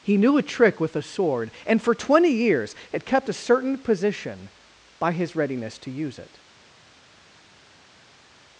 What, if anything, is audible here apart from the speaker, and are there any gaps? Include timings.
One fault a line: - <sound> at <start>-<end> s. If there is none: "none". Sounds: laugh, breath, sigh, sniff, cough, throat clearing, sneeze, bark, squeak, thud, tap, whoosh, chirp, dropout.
none